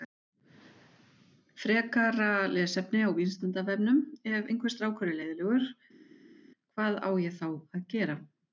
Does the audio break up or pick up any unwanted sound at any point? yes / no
no